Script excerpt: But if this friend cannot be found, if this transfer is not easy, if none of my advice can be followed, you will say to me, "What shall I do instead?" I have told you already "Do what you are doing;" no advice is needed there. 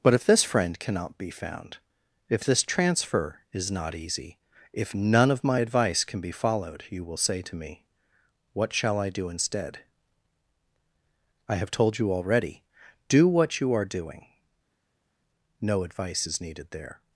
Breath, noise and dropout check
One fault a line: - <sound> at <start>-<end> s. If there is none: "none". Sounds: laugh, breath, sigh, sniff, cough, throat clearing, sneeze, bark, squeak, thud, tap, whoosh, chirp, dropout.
none